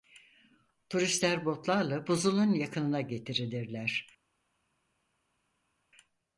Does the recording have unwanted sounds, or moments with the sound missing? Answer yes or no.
no